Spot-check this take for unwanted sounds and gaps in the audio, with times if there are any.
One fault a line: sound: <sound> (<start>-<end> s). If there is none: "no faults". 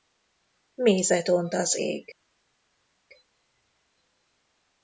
no faults